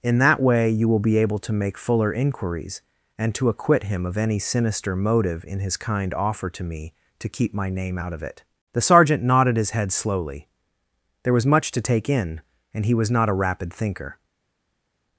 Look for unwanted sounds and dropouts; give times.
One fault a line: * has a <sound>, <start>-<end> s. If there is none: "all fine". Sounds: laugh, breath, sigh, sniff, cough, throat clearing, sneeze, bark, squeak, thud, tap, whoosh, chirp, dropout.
all fine